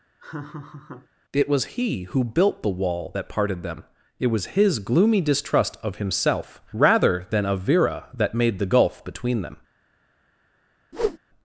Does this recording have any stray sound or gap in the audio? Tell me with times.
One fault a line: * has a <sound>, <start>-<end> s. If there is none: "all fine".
* has a laugh, 0.2-1.1 s
* has a whoosh, 10.9-11.2 s